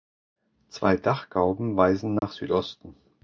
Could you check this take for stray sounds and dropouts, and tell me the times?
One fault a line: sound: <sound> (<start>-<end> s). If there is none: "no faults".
sound: dropout (2.2-2.2 s)